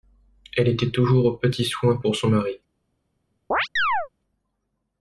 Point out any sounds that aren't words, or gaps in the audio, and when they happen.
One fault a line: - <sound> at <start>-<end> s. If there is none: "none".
- chirp at 3.5-4.1 s